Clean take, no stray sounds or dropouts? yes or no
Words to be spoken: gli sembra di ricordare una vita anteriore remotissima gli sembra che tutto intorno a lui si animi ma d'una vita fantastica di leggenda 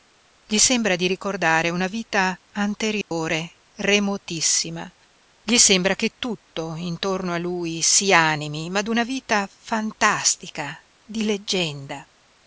no